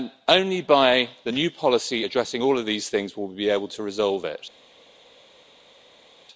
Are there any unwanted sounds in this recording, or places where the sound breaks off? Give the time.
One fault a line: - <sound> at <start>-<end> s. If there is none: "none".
none